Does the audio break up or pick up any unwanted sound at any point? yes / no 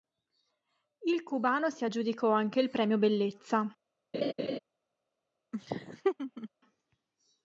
yes